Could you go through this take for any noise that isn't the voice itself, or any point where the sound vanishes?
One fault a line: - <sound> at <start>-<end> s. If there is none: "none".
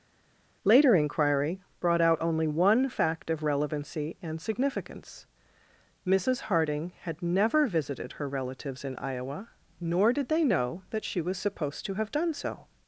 none